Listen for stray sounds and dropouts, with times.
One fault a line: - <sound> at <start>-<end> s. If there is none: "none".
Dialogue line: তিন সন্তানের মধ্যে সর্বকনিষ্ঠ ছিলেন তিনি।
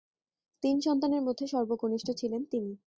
none